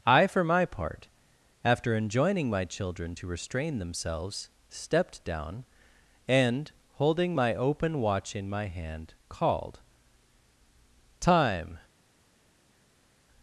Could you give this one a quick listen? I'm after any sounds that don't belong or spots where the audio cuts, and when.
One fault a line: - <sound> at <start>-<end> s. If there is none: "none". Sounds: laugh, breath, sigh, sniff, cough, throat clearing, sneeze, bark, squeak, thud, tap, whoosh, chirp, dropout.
none